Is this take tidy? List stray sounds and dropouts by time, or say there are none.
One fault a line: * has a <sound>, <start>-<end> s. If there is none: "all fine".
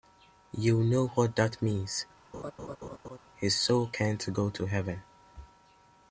* has a laugh, 2.3-3.2 s